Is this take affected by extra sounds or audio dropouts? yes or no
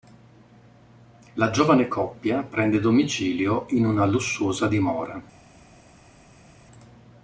no